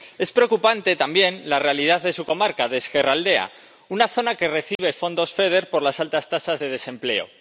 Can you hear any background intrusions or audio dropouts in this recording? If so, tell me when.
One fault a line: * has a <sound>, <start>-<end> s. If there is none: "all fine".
* has a dropout, 4.8-4.8 s